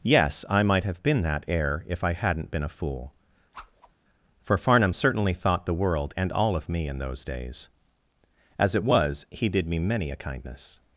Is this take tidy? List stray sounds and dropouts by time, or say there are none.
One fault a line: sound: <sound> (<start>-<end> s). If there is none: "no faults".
sound: whoosh (3.5-3.9 s)